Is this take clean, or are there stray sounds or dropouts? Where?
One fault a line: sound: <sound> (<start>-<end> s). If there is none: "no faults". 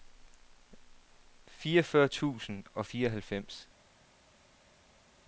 no faults